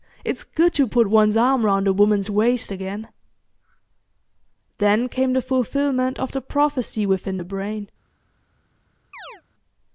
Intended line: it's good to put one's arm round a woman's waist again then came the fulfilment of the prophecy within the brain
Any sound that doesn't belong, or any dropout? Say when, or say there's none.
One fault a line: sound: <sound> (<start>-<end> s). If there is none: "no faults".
sound: chirp (9.1-9.4 s)